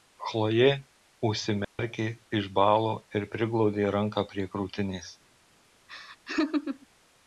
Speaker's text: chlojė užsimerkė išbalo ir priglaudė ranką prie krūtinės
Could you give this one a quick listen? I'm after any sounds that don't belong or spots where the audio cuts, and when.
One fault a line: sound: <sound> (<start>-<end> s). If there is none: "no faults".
sound: dropout (1.6-1.8 s)
sound: laugh (5.9-6.9 s)